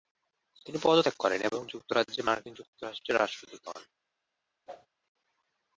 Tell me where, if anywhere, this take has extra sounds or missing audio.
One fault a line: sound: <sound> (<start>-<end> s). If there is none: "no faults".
sound: whoosh (4.7-4.9 s)